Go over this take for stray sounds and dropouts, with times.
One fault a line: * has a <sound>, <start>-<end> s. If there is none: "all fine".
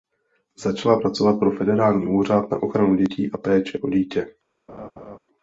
* has a laugh, 4.7-5.2 s